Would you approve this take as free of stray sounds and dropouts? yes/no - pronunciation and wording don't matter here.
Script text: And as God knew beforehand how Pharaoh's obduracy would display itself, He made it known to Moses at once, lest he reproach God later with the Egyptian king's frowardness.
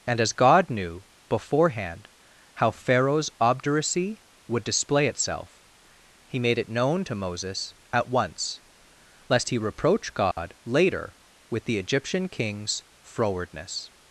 no